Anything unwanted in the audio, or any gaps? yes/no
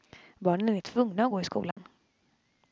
yes